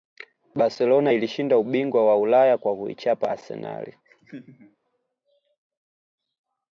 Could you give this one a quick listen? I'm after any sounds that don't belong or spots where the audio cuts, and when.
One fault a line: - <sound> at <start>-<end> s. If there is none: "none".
- laugh at 4.0-4.8 s